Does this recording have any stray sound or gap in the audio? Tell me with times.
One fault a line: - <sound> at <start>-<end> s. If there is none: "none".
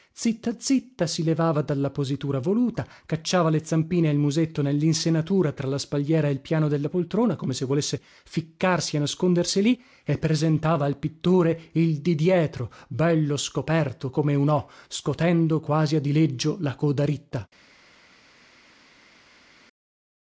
none